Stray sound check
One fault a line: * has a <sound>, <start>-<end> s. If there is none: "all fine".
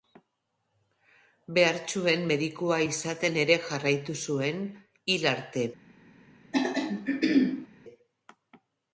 * has a throat clearing, 6.5-7.7 s